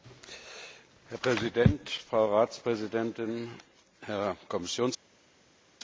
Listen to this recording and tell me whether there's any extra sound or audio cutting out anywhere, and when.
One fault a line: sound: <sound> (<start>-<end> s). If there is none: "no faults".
no faults